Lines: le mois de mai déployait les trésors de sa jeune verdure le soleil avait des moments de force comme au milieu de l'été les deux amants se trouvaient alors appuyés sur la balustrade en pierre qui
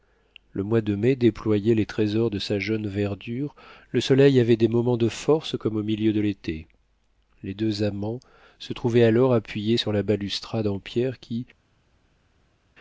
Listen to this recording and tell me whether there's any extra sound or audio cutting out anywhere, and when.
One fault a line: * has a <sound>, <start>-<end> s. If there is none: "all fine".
all fine